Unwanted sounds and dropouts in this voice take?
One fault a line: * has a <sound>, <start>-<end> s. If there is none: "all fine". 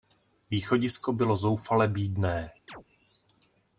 * has a chirp, 2.7-2.8 s